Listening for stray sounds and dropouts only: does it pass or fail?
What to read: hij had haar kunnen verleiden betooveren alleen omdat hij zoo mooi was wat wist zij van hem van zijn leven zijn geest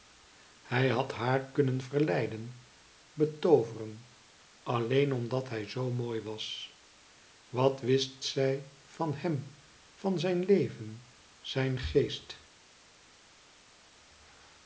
pass